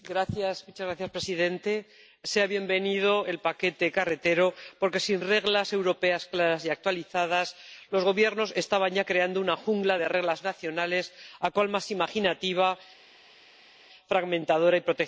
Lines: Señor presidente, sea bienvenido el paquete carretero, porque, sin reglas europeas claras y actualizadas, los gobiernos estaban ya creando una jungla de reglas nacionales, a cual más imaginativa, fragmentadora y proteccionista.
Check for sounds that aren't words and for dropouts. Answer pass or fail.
pass